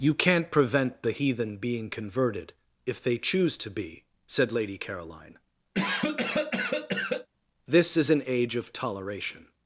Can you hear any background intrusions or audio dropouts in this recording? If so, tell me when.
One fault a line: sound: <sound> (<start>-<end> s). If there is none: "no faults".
sound: cough (5.7-7.3 s)